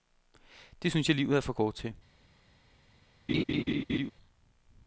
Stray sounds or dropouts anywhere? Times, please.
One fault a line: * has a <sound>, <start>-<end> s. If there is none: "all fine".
* has a laugh, 3.3-4.1 s